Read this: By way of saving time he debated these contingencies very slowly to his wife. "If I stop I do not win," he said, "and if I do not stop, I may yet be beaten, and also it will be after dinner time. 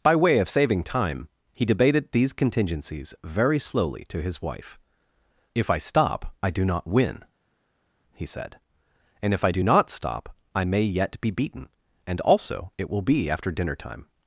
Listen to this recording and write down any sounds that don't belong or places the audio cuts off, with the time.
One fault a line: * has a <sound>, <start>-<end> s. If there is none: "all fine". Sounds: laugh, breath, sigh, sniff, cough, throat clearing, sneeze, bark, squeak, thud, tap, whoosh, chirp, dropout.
all fine